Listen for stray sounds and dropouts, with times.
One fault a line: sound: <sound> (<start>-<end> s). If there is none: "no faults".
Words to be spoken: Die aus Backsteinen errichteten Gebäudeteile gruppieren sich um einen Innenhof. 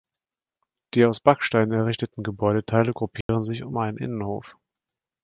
sound: dropout (3.2-3.3 s)